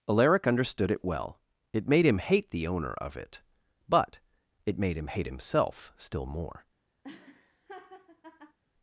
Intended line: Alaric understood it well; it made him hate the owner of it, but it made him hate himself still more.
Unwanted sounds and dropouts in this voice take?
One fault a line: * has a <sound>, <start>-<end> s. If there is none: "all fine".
* has a laugh, 7.0-8.6 s